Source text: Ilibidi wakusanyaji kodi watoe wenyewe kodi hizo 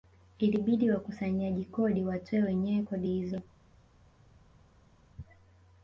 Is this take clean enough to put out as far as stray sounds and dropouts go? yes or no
yes